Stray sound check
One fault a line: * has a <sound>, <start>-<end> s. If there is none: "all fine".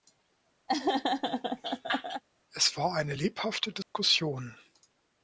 * has a laugh, 0.7-2.2 s
* has a dropout, 3.8-3.9 s